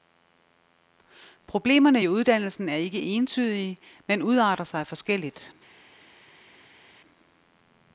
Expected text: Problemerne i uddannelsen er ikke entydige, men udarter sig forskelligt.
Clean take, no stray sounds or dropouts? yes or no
yes